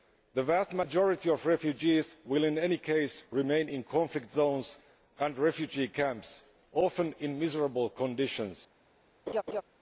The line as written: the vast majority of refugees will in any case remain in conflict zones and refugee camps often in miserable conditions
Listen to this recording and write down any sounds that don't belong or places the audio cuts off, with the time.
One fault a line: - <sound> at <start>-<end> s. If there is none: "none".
- laugh at 9.3-9.6 s